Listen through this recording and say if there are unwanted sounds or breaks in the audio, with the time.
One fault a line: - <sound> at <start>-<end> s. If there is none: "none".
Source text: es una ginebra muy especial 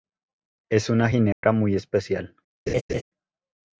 - dropout at 1.3-1.4 s
- laugh at 2.7-3.0 s